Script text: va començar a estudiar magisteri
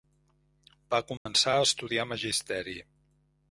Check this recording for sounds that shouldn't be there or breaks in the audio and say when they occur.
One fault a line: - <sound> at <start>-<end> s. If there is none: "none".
- dropout at 1.2-1.3 s